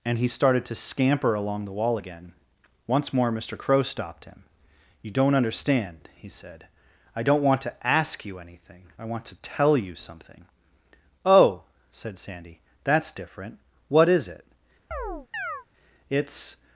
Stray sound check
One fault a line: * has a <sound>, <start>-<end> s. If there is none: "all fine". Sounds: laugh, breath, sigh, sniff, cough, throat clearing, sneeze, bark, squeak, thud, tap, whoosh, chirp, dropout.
* has a chirp, 14.9-15.7 s